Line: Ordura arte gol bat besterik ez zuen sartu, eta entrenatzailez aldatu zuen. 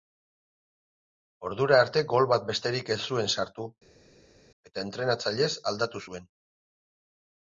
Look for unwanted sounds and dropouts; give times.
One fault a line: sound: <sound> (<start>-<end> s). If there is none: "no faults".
no faults